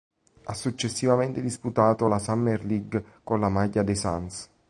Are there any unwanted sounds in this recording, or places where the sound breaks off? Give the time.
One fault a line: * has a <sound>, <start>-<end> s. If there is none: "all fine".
all fine